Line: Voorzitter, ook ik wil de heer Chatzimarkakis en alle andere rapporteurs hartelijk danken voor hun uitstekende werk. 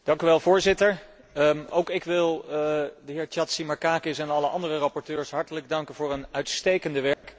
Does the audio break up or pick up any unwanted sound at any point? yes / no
yes